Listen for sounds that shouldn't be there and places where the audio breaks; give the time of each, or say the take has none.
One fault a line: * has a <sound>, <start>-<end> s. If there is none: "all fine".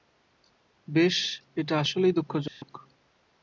* has a dropout, 2.5-2.6 s